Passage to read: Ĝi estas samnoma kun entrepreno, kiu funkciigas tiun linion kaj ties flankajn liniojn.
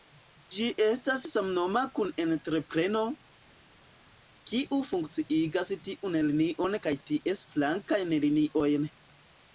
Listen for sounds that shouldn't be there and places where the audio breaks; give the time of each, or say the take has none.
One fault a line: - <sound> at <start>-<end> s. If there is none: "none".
none